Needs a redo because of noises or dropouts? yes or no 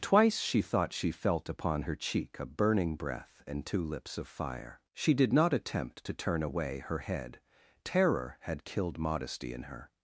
no